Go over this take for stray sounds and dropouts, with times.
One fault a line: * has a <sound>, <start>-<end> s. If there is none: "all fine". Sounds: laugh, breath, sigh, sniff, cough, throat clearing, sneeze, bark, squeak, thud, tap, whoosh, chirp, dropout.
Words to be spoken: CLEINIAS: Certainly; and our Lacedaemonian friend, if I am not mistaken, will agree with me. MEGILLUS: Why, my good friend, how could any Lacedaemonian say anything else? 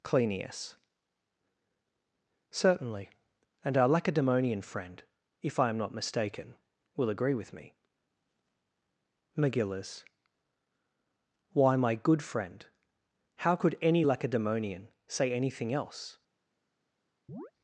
* has a chirp, 17.3-17.5 s